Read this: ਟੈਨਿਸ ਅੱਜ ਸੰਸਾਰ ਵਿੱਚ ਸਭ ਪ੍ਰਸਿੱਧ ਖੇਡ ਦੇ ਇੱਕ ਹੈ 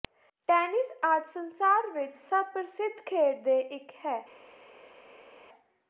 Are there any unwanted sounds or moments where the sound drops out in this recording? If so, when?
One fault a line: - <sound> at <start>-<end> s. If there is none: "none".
none